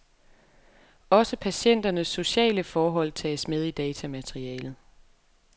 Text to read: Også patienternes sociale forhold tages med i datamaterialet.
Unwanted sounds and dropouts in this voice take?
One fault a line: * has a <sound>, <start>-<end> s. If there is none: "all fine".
all fine